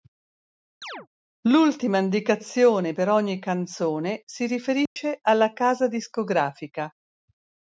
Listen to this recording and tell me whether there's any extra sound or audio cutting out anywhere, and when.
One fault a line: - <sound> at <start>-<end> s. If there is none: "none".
- chirp at 0.8-1.1 s
- dropout at 4.9-5.0 s